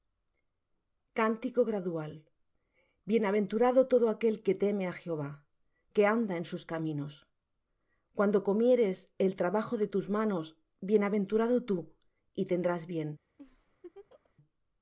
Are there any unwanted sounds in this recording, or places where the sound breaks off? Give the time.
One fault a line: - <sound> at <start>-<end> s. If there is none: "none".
- laugh at 13.4-14.3 s